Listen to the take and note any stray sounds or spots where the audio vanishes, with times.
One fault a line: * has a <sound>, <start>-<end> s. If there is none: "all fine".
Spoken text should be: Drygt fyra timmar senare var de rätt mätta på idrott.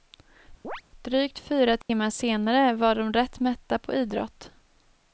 * has a chirp, 0.6-0.8 s
* has a dropout, 1.8-1.9 s